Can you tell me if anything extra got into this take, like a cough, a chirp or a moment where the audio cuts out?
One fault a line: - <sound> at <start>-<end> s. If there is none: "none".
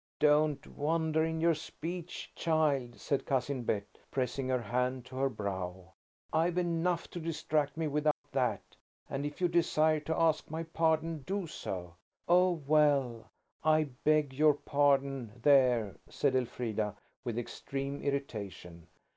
- dropout at 8.1-8.2 s